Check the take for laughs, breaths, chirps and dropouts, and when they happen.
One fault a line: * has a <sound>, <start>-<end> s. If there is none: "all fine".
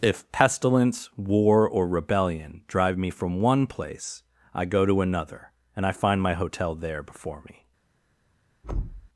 * has a thud, 8.6-9.1 s